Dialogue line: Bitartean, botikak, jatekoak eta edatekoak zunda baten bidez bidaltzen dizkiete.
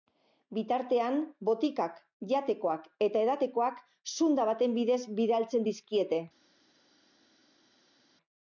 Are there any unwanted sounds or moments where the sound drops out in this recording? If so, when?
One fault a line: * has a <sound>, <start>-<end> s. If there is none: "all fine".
all fine